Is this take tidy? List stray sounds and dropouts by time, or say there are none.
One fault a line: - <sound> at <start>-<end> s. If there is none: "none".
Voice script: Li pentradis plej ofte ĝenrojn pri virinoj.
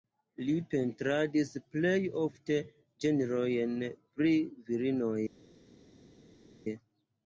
none